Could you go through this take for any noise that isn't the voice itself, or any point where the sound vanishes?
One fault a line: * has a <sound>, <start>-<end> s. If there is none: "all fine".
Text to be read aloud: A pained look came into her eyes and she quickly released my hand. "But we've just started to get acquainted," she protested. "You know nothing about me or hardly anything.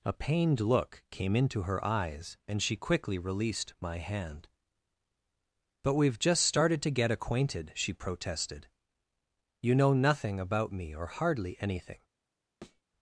* has a thud, 12.6-12.8 s